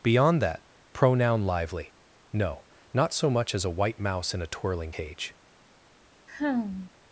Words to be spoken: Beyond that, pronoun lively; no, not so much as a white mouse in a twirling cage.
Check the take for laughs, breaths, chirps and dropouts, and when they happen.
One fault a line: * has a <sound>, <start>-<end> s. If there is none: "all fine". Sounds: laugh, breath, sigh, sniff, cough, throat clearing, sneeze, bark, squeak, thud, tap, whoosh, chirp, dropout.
* has a sigh, 6.3-6.9 s